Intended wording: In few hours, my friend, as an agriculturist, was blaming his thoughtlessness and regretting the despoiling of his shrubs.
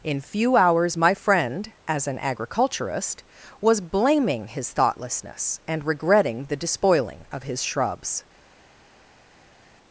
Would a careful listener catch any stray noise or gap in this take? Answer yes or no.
no